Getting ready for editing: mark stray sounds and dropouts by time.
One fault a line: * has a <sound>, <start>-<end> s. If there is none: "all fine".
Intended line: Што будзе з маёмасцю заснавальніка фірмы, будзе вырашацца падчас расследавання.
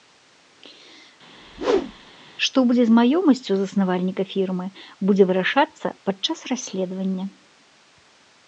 * has a whoosh, 1.4-2.2 s